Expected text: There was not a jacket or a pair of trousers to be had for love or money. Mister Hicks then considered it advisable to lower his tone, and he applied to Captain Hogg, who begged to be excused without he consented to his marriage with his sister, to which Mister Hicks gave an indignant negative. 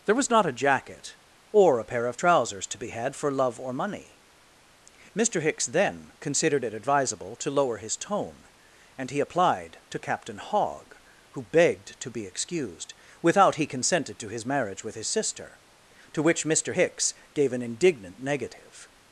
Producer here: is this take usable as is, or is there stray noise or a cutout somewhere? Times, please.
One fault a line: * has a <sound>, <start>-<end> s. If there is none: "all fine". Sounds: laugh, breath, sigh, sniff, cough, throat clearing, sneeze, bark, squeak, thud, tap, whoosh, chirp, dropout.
all fine